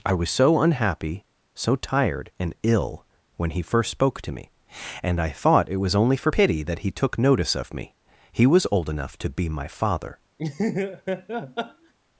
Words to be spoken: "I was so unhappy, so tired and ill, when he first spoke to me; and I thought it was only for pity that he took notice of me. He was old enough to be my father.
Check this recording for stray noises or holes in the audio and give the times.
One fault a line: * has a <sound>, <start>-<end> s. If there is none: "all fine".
* has a laugh, 10.4-11.9 s